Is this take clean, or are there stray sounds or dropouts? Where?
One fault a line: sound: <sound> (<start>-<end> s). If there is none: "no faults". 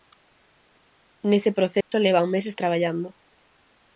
sound: dropout (1.8-1.9 s)